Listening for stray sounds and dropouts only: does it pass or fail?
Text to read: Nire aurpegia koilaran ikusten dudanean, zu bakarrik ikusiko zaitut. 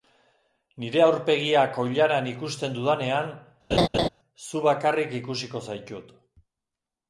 fail